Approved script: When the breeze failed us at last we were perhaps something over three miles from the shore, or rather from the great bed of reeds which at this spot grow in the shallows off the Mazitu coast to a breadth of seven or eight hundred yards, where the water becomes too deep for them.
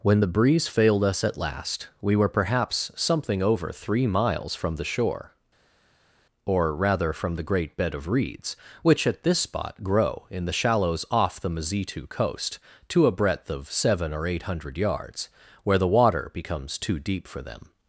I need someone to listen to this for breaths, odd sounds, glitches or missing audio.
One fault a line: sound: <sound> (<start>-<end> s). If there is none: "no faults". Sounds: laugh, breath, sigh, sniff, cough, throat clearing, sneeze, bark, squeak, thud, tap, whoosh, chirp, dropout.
no faults